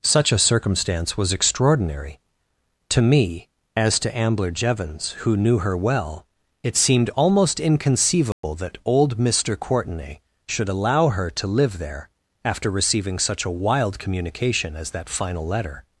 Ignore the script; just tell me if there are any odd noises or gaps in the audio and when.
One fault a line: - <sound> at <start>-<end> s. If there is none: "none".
- dropout at 8.3-8.4 s